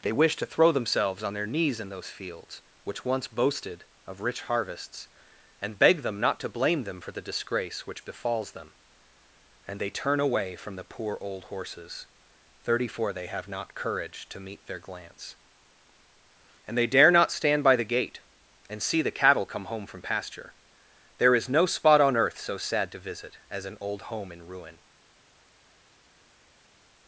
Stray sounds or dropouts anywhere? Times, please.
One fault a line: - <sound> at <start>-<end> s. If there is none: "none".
none